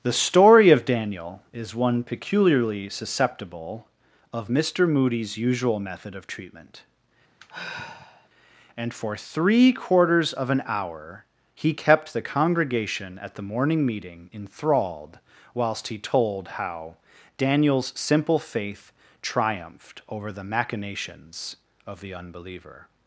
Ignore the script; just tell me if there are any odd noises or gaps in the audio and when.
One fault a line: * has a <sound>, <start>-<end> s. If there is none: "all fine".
* has a sigh, 7.4-8.3 s